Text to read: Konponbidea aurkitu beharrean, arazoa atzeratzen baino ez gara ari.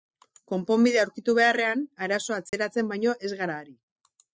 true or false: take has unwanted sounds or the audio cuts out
true